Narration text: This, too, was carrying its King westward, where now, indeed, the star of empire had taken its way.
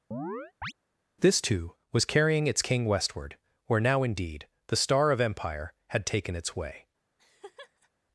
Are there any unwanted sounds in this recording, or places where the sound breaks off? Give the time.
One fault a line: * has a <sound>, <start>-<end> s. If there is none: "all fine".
* has a chirp, 0.1-0.7 s
* has a laugh, 7.2-7.9 s